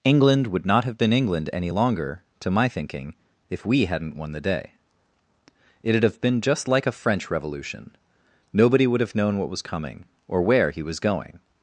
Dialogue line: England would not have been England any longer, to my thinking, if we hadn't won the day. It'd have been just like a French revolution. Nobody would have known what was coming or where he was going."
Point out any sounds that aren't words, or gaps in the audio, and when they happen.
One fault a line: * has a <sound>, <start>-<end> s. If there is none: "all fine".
all fine